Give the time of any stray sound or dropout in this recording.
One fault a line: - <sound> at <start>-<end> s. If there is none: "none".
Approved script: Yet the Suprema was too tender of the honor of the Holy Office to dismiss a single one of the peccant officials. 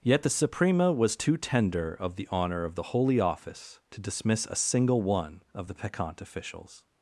none